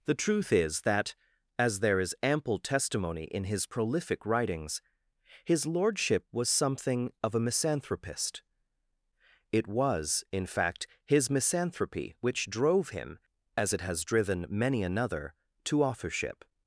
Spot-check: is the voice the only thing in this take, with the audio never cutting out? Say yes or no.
yes